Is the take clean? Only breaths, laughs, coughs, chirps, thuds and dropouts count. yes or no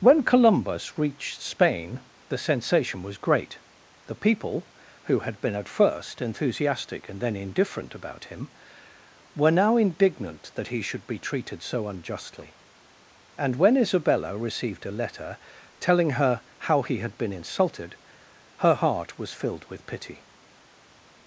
yes